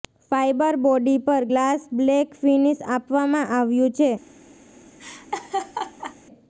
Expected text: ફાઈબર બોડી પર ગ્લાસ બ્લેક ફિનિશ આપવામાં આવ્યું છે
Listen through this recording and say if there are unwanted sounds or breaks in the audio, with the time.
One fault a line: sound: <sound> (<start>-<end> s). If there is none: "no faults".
sound: laugh (5.0-6.2 s)